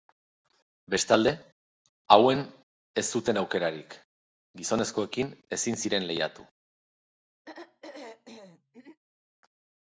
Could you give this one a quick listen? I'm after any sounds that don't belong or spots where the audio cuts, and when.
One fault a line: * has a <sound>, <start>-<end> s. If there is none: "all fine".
* has a throat clearing, 7.5-9.0 s